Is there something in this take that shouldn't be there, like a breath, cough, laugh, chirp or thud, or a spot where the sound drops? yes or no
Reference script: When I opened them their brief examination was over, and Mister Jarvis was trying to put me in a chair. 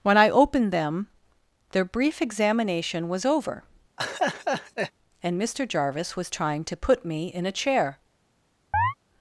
yes